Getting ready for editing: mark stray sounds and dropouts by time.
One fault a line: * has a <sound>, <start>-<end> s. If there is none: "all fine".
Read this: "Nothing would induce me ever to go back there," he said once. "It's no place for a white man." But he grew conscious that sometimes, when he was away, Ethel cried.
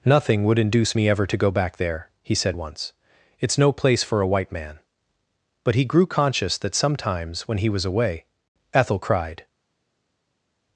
all fine